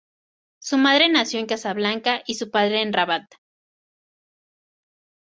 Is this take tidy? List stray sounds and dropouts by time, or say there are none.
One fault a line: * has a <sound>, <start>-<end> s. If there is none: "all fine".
all fine